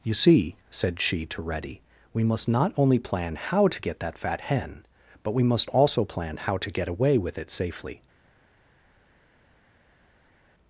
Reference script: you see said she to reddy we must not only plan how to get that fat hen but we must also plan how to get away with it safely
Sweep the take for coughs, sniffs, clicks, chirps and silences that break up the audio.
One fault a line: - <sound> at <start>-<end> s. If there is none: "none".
none